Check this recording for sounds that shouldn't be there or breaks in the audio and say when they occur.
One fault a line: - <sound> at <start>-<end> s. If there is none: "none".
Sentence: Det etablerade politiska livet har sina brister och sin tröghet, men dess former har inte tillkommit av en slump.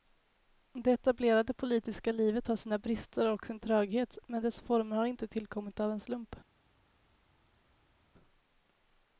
none